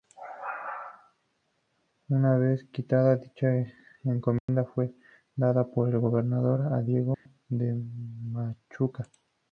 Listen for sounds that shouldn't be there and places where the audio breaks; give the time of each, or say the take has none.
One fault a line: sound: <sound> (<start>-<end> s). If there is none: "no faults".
sound: dropout (4.4-4.5 s)
sound: dropout (7.1-7.3 s)